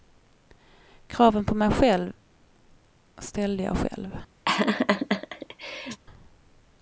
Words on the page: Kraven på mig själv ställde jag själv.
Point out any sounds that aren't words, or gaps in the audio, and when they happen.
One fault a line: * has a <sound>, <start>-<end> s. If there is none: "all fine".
* has a laugh, 4.5-6.0 s